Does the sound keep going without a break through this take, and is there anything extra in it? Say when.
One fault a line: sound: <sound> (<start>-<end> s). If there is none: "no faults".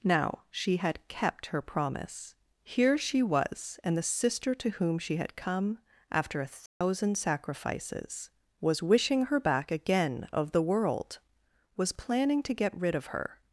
sound: dropout (6.7-6.8 s)